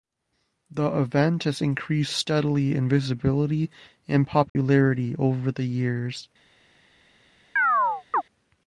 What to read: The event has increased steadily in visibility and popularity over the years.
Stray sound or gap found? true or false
true